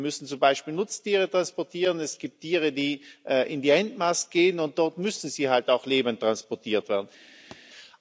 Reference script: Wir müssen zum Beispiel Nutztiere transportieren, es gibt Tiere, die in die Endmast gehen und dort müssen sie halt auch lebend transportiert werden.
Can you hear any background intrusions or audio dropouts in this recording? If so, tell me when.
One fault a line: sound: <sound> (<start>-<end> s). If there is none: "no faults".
sound: thud (7.5-7.6 s)